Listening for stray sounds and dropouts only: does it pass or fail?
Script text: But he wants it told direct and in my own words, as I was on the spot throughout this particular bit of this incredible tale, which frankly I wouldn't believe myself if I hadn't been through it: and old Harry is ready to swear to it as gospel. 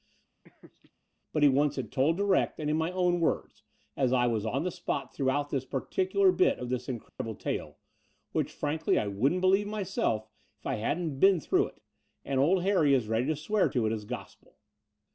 fail